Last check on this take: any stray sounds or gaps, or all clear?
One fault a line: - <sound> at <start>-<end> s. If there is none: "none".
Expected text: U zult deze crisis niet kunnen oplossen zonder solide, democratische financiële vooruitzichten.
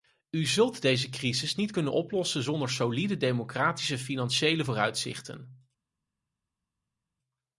none